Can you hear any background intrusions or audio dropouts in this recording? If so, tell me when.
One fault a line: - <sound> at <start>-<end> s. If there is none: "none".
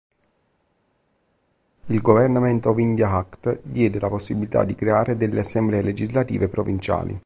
none